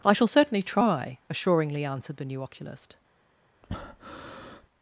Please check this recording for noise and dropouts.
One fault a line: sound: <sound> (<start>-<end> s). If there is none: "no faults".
sound: breath (3.6-4.7 s)